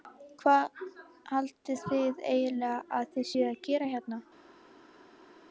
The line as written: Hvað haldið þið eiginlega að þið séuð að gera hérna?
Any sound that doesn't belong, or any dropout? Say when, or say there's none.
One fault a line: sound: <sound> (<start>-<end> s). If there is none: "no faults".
no faults